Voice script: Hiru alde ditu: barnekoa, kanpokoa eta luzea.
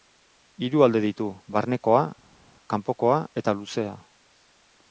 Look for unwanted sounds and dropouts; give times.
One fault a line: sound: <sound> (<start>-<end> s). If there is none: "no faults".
no faults